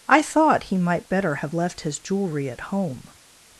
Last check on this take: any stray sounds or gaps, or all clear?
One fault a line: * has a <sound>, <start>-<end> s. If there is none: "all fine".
all fine